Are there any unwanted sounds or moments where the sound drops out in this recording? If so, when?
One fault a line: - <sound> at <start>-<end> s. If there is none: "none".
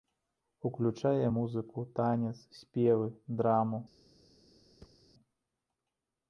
- thud at 4.8-5.0 s